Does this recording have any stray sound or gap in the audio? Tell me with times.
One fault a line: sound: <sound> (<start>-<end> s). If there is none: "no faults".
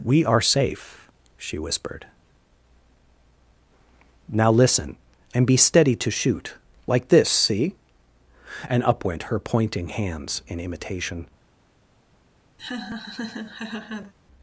sound: laugh (12.6-14.1 s)